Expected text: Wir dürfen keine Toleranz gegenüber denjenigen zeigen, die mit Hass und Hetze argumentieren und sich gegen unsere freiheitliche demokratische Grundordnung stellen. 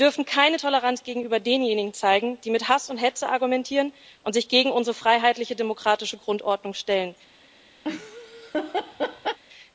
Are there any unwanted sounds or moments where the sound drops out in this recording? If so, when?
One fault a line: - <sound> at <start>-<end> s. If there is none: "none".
- laugh at 7.8-9.4 s